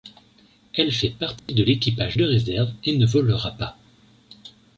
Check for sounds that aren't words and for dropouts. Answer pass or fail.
fail